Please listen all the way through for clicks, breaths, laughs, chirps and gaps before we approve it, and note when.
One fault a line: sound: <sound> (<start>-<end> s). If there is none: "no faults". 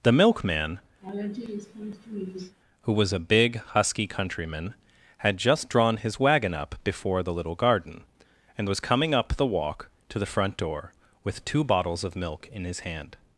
sound: laugh (1.0-2.6 s)